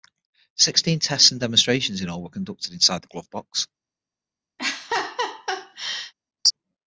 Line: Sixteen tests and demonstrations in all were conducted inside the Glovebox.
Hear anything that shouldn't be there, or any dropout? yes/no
yes